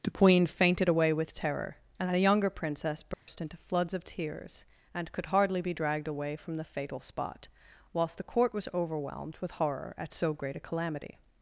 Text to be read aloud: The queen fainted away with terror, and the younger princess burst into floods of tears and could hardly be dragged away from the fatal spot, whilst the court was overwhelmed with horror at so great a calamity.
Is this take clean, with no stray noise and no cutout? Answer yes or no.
no